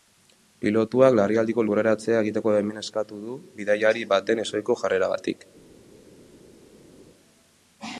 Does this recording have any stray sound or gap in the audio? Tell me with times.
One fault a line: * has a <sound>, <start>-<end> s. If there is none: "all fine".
all fine